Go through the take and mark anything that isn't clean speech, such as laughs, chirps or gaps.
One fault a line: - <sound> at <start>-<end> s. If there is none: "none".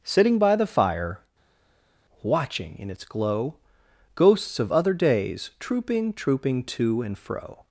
none